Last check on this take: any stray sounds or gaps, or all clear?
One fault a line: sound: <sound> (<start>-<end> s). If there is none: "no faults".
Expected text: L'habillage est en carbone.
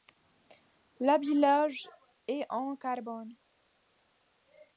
no faults